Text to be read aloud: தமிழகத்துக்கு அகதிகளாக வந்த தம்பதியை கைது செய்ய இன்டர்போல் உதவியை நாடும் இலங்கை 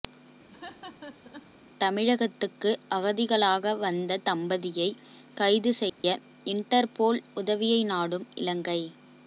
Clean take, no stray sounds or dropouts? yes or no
no